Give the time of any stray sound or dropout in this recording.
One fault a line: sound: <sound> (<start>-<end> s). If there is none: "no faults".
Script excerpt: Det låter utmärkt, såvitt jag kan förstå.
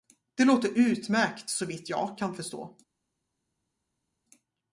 no faults